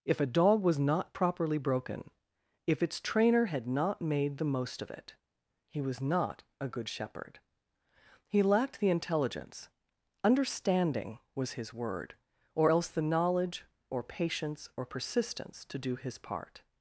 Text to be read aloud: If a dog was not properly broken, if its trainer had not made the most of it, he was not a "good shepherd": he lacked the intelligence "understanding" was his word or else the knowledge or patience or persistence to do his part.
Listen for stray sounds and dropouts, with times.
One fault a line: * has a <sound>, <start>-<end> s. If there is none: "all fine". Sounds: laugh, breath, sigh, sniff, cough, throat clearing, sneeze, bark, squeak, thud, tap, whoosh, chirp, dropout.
all fine